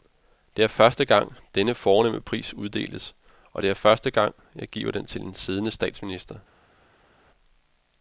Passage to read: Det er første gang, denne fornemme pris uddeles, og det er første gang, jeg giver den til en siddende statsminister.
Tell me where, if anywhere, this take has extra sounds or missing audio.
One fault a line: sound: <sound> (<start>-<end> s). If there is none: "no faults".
no faults